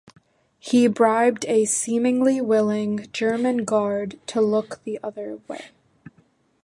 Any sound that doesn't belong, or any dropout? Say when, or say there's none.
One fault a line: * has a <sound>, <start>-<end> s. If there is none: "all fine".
all fine